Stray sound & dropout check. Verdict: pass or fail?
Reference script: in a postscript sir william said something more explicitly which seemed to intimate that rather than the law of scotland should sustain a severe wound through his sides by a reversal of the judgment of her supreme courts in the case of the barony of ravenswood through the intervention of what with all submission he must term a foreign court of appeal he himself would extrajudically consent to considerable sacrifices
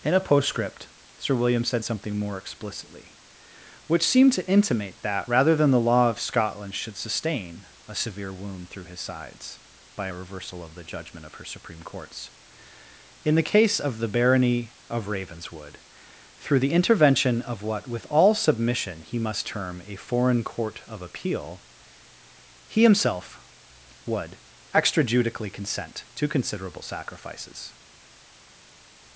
pass